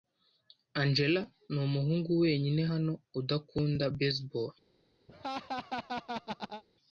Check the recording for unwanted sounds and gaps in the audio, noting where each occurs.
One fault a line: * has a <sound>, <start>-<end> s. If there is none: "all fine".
* has a laugh, 5.1-6.6 s